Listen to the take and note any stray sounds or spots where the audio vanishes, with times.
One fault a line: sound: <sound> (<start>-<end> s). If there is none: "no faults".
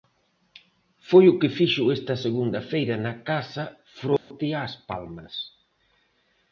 sound: dropout (4.2-4.3 s)